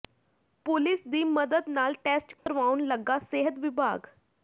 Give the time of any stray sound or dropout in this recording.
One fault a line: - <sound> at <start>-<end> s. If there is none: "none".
- dropout at 2.4-2.5 s